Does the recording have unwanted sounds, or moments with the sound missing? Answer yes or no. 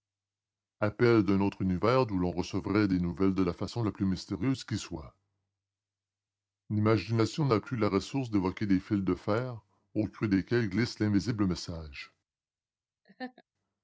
yes